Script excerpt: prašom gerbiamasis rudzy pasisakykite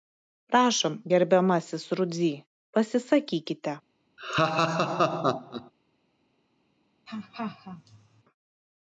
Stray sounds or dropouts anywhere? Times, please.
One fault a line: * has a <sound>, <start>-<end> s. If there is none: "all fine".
* has a laugh, 4.2-5.7 s
* has a laugh, 7.1-8.2 s